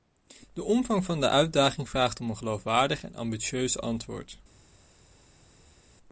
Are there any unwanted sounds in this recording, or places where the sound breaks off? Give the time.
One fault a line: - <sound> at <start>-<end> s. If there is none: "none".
none